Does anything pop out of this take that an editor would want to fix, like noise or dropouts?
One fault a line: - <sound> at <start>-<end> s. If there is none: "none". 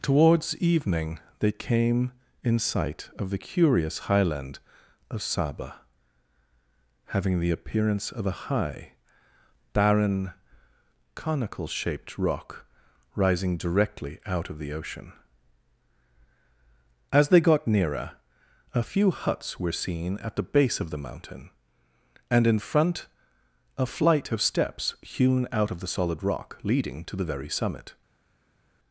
none